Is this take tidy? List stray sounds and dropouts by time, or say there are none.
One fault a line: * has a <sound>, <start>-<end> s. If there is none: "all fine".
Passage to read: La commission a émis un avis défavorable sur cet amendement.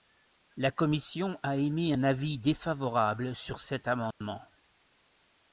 * has a dropout, 4.1-4.2 s